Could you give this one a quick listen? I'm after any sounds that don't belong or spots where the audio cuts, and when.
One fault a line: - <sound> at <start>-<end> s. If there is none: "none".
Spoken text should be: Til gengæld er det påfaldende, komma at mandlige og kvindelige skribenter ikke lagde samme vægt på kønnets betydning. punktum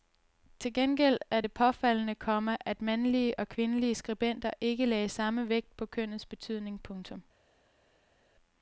none